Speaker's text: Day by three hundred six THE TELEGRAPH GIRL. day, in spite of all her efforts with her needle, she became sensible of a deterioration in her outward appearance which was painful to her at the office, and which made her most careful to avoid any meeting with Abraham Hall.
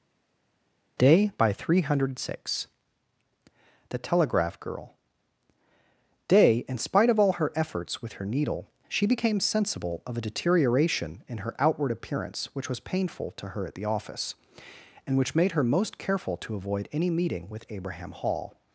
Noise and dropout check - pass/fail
pass